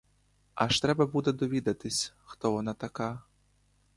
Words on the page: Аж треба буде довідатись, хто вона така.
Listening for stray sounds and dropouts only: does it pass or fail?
pass